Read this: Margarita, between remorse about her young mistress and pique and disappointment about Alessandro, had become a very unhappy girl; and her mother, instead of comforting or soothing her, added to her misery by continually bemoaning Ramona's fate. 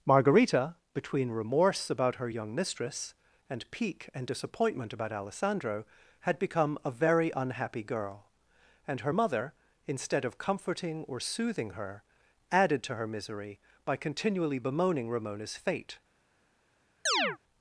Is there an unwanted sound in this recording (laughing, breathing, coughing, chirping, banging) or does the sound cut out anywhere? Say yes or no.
yes